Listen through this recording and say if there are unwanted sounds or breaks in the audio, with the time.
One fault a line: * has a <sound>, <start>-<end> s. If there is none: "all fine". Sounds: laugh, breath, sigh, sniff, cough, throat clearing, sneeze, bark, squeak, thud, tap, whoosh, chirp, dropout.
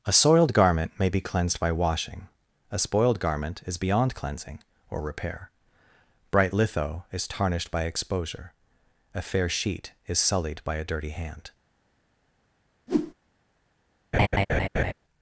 * has a whoosh, 12.9-13.1 s
* has a laugh, 14.1-14.9 s